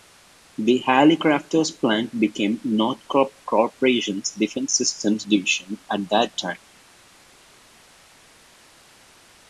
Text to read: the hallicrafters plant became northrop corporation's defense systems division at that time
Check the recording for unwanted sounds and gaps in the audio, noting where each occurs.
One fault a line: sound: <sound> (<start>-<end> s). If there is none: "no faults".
no faults